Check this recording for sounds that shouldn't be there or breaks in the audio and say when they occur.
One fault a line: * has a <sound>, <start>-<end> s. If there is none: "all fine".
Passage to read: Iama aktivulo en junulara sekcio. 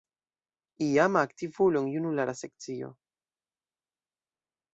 all fine